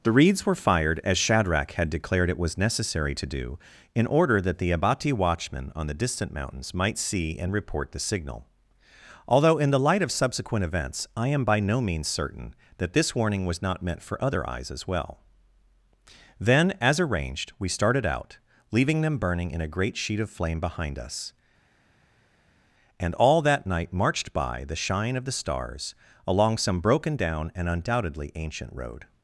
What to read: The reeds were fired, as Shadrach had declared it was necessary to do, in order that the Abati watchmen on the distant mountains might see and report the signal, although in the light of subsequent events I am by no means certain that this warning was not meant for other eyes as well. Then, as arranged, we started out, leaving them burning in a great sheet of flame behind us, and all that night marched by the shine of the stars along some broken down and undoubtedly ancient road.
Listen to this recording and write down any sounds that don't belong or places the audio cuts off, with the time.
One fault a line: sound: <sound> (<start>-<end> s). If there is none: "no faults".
no faults